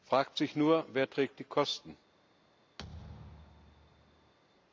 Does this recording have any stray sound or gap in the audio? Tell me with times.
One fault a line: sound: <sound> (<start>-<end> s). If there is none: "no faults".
sound: thud (2.8-4.3 s)